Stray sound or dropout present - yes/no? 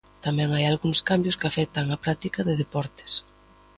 no